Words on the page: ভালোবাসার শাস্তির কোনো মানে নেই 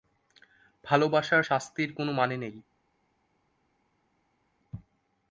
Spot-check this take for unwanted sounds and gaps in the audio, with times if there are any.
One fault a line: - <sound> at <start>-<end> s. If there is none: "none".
none